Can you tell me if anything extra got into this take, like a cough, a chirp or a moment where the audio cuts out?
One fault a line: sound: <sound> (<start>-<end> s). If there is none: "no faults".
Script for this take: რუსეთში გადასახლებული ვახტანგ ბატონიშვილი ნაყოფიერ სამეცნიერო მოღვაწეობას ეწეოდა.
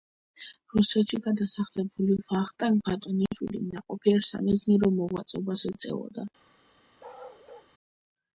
sound: bark (7.0-7.7 s)